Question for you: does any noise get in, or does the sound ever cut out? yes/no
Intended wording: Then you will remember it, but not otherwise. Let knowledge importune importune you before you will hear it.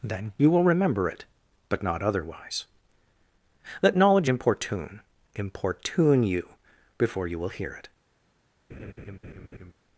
yes